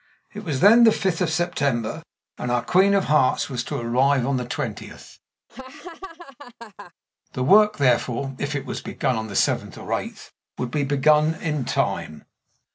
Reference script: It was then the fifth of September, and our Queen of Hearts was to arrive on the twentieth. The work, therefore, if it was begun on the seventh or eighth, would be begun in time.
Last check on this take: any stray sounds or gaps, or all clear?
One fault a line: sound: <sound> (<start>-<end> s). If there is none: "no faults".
sound: laugh (5.5-6.9 s)